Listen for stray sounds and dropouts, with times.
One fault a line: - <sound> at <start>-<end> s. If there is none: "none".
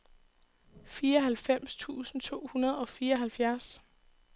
none